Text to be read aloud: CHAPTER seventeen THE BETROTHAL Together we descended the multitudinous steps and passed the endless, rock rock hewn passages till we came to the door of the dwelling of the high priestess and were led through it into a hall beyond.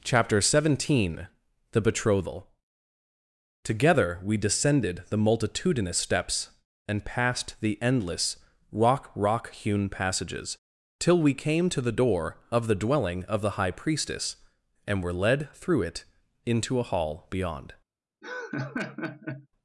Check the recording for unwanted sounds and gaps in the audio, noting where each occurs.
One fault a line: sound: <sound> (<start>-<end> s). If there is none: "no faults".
sound: laugh (18.2-19.5 s)